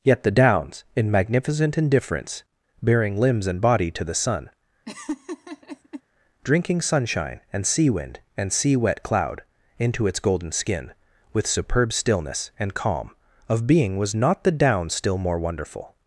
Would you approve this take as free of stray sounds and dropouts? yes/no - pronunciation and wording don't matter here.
no